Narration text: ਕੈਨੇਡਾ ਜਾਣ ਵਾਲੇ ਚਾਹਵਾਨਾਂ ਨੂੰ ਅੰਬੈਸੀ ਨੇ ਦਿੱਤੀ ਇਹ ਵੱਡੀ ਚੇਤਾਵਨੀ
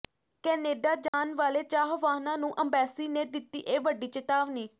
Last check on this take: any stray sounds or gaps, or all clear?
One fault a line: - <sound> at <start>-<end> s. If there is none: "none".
- dropout at 1.1-1.1 s